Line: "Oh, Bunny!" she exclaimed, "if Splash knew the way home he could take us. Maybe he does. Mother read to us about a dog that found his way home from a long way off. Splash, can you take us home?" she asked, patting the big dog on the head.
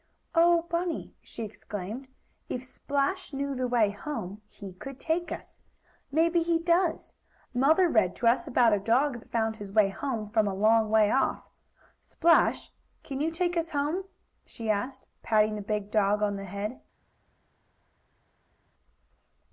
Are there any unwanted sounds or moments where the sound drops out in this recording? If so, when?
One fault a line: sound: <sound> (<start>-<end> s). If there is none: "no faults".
no faults